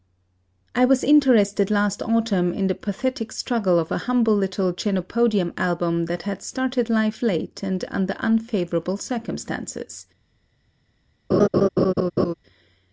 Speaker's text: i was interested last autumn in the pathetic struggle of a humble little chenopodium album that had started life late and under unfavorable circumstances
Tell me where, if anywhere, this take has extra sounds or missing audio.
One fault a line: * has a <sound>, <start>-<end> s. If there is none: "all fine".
* has a laugh, 11.3-12.3 s